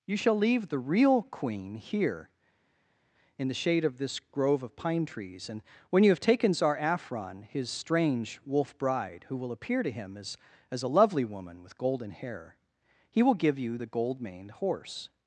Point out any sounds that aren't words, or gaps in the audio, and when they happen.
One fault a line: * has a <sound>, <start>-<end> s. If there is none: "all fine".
all fine